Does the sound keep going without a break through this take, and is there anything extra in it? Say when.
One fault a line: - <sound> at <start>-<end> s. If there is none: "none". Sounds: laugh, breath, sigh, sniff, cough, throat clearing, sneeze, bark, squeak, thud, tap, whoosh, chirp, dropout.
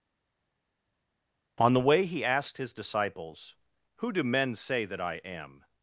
none